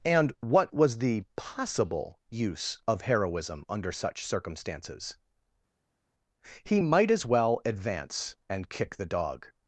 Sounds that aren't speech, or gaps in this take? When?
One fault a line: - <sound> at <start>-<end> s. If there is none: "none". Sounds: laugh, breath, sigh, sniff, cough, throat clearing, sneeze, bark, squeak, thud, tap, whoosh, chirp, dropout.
none